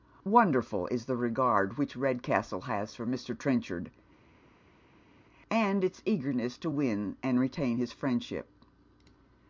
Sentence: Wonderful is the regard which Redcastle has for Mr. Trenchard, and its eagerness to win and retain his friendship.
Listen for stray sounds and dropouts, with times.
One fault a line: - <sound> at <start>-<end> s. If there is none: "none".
none